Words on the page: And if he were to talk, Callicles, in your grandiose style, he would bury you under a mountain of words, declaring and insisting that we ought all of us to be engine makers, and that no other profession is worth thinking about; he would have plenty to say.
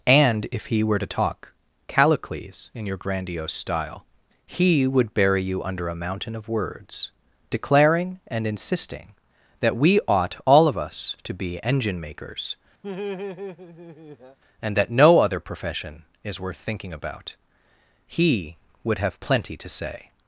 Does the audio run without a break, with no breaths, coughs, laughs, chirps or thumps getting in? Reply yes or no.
no